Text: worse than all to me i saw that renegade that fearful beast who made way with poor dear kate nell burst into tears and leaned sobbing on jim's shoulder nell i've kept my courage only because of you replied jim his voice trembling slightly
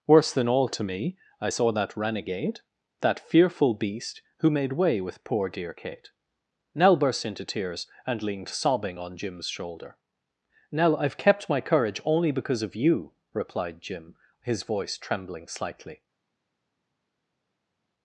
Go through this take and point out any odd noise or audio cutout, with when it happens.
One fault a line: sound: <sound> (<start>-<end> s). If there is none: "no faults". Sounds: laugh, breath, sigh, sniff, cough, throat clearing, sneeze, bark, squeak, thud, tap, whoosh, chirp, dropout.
no faults